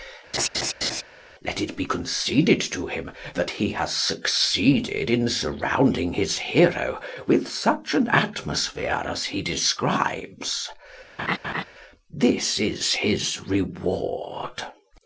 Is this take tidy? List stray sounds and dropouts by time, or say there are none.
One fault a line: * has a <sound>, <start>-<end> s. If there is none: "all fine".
* has a laugh, 0.3-1.0 s
* has a laugh, 11.2-11.6 s